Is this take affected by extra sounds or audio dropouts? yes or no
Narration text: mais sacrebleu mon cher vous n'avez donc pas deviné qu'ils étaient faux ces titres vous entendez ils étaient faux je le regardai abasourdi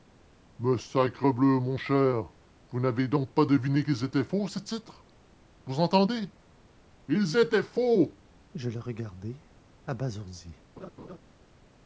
yes